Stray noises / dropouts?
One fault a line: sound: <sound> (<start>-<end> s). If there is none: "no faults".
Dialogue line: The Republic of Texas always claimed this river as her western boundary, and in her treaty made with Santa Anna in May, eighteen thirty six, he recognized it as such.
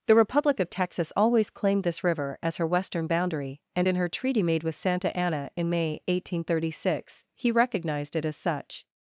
no faults